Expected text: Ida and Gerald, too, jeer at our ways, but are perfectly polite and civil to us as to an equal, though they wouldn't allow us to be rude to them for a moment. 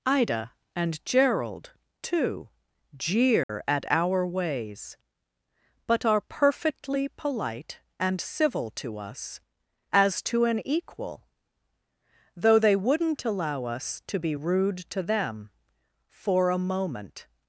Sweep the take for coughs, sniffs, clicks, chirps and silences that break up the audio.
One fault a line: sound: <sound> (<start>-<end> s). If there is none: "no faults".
sound: dropout (3.4-3.5 s)